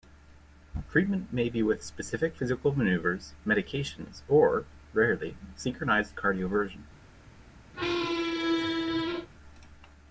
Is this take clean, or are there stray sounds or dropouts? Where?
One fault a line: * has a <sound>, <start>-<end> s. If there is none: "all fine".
* has a squeak, 7.7-9.3 s